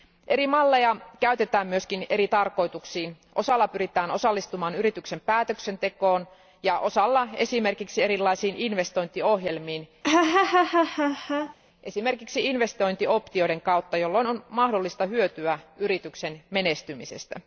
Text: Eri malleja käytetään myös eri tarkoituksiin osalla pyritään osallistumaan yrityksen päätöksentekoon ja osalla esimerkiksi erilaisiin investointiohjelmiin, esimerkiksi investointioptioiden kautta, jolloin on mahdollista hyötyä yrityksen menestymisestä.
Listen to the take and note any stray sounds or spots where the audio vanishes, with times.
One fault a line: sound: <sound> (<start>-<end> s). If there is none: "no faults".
sound: laugh (10.0-11.5 s)